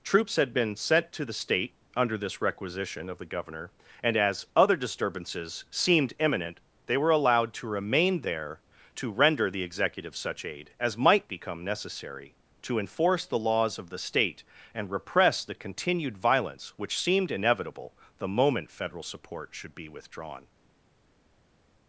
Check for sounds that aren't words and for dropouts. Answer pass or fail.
pass